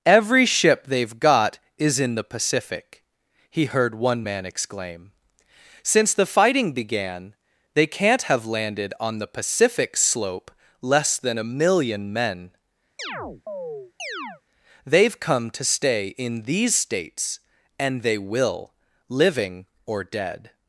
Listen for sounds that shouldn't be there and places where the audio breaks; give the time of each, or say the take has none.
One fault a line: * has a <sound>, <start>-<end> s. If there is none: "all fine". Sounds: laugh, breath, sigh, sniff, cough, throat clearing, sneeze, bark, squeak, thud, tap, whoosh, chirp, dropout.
* has a chirp, 13.0-14.4 s